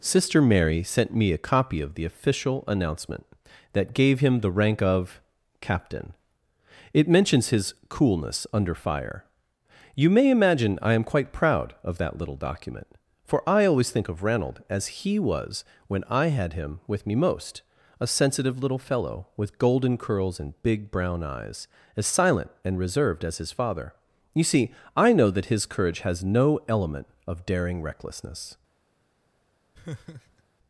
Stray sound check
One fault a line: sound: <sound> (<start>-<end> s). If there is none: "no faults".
sound: laugh (29.7-30.4 s)